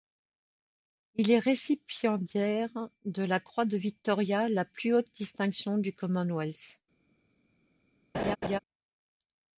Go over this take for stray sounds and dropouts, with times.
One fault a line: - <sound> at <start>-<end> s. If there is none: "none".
- laugh at 8.1-8.6 s